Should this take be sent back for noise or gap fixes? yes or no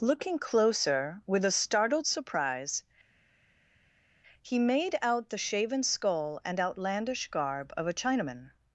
no